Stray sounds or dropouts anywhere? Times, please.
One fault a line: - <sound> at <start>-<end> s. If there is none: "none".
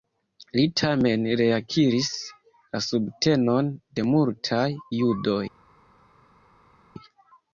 none